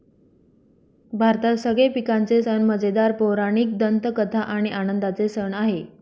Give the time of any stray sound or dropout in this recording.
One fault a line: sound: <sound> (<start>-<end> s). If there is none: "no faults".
no faults